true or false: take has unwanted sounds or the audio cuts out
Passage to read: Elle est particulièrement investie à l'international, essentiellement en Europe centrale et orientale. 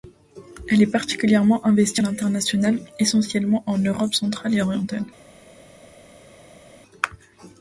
false